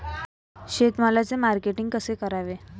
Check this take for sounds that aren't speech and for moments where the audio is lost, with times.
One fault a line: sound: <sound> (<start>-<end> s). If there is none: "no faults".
no faults